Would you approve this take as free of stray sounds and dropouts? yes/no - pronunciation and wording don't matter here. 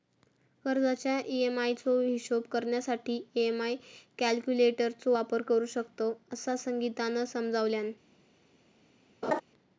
no